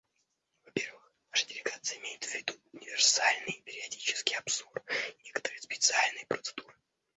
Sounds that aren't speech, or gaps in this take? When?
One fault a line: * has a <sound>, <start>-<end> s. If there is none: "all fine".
all fine